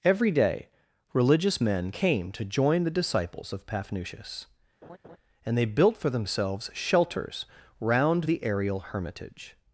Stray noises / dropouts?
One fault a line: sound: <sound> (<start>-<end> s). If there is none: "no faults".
sound: laugh (4.8-5.2 s)